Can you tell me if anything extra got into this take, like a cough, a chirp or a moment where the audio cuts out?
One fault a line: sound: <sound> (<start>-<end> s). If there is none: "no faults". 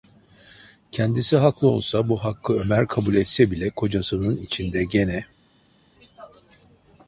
no faults